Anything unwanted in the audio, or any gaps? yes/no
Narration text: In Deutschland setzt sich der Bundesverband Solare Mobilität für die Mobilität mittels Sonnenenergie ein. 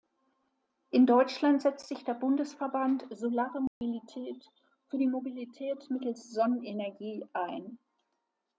yes